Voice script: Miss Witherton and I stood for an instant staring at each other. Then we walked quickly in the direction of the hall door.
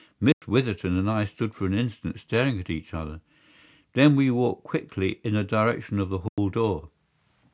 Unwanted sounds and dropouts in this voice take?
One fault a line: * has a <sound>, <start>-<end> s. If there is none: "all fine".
* has a dropout, 0.3-0.4 s
* has a dropout, 6.3-6.4 s